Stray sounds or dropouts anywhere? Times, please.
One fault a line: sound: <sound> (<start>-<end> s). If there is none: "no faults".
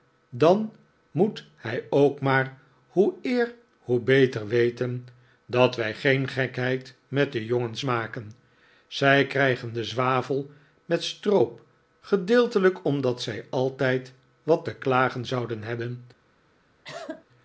sound: cough (16.8-17.3 s)